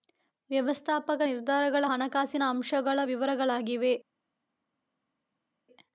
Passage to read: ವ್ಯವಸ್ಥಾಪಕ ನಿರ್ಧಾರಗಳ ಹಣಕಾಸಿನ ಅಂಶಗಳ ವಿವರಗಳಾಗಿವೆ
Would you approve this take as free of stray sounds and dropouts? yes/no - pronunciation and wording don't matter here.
yes